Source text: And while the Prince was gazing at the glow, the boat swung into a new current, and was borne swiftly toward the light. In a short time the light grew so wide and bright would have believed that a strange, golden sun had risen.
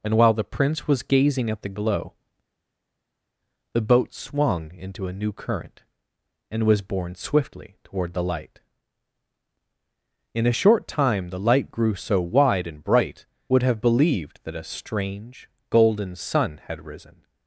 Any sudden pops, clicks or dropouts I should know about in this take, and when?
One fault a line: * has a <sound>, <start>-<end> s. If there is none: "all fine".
all fine